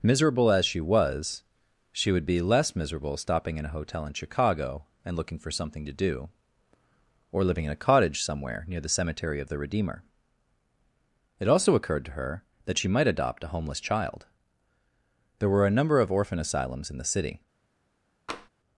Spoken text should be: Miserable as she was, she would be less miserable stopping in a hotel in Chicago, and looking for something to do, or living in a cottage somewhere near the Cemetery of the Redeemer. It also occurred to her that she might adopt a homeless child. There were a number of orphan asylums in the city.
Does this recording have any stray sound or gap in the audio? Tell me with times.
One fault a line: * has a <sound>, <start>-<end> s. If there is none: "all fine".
* has a tap, 18.3-18.5 s